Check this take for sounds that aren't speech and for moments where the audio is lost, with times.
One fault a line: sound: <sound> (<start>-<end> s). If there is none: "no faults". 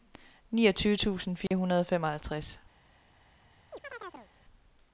sound: dropout (1.5-1.5 s)
sound: chirp (3.7-4.3 s)